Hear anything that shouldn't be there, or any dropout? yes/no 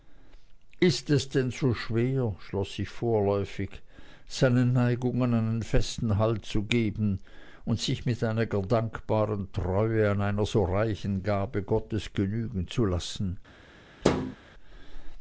yes